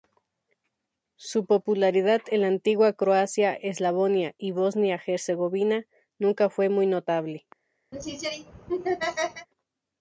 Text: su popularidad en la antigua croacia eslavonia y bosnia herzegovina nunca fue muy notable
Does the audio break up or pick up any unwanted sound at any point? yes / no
yes